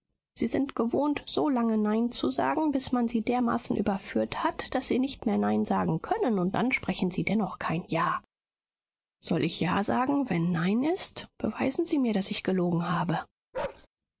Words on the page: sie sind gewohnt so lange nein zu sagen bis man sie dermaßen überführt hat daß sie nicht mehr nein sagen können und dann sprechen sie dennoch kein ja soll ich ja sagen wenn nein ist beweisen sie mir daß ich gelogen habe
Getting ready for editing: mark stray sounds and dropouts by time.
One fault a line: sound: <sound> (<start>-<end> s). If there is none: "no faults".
sound: bark (13.5-13.9 s)